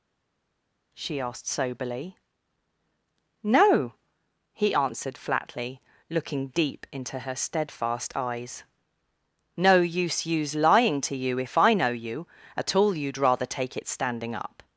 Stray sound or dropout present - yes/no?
no